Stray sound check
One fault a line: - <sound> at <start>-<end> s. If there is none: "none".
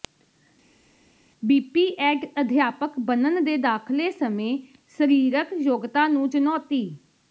none